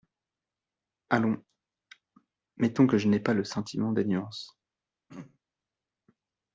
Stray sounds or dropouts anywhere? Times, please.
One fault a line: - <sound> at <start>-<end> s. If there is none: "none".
- throat clearing at 5.1-5.4 s